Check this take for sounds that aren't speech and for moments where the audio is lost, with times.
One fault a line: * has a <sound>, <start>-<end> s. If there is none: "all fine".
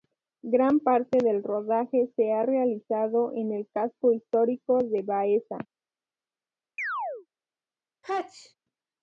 * has a chirp, 6.8-7.3 s
* has a sneeze, 8.0-8.5 s